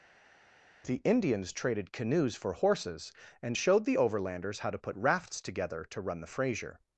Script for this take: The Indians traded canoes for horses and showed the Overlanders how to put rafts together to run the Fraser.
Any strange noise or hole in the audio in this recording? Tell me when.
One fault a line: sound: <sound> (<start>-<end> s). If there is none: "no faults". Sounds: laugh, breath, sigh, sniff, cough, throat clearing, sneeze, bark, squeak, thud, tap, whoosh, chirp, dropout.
no faults